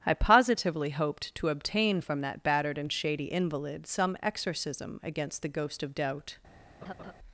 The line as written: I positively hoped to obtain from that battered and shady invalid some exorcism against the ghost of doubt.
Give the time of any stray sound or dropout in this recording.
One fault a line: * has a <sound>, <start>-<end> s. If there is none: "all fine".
* has a laugh, 6.8-7.1 s